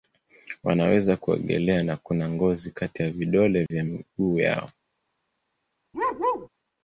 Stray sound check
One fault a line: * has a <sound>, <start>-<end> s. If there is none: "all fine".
* has a dropout, 3.7-3.7 s
* has a bark, 5.9-6.5 s